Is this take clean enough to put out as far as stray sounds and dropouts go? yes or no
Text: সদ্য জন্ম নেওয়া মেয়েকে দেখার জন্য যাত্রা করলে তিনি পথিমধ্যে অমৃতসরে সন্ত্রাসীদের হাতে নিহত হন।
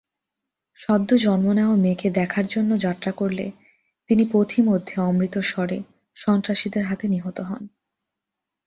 yes